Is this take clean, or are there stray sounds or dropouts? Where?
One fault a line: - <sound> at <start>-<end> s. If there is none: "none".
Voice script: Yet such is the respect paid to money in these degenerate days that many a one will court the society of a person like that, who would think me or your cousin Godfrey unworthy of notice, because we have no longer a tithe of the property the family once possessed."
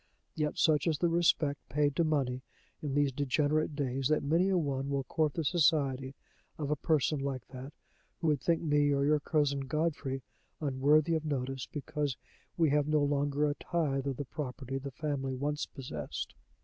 none